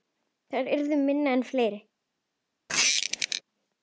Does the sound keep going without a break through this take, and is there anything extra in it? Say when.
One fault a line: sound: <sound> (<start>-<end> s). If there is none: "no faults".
sound: squeak (2.7-3.4 s)